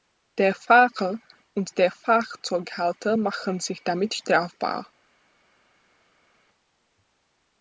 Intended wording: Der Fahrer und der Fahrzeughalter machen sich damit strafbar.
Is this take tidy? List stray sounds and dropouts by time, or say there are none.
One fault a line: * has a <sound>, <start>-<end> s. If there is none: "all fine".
all fine